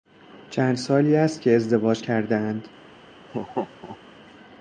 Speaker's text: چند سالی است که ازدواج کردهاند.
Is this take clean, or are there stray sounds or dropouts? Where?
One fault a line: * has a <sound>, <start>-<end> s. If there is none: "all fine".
* has a laugh, 3.3-4.0 s